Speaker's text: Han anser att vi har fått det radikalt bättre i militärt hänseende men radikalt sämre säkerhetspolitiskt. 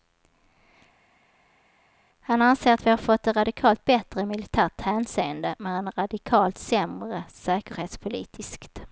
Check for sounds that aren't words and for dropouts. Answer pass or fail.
pass